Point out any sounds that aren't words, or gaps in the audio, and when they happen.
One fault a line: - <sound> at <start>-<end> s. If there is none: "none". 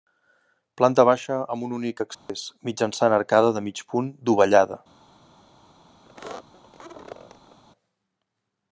- dropout at 2.1-2.3 s
- squeak at 6.0-7.6 s